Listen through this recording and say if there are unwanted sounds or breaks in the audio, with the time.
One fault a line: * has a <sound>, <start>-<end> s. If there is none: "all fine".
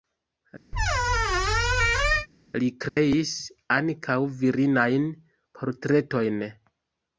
* has a squeak, 0.7-2.3 s
* has a dropout, 2.9-3.0 s